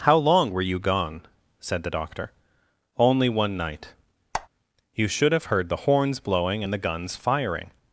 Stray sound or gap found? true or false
true